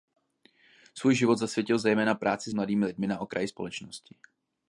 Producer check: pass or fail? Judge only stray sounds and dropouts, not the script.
pass